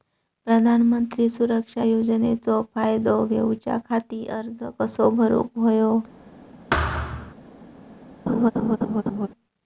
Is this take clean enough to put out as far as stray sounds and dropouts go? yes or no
no